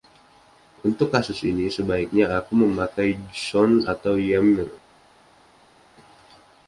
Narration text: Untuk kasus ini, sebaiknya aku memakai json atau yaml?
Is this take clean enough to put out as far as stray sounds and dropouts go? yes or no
yes